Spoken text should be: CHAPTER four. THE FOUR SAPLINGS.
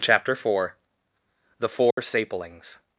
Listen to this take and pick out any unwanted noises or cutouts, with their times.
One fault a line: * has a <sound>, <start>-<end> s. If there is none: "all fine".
* has a dropout, 1.9-2.0 s